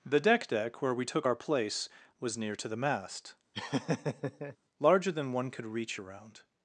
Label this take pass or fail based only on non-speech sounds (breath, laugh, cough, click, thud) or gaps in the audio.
fail